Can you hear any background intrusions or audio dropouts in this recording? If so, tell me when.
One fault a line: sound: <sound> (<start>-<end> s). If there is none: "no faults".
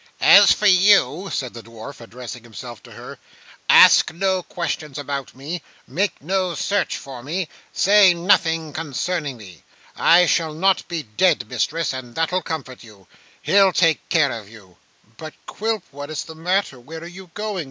no faults